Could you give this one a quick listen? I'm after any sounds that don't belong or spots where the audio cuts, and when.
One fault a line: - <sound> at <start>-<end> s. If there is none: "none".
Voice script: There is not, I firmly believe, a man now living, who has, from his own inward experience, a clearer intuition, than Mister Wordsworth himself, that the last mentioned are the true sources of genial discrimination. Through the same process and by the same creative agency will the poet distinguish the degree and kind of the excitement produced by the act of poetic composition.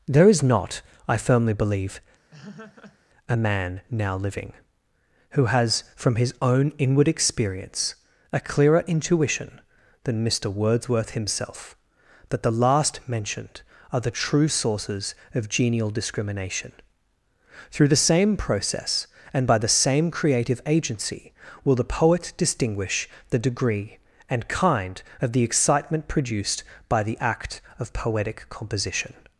- laugh at 2.3-3.0 s